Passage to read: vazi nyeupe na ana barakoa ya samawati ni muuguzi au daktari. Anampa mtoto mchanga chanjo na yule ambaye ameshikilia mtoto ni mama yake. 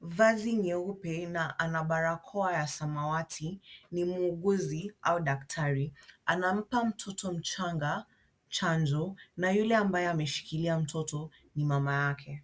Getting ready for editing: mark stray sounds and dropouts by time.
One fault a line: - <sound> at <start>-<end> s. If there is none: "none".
none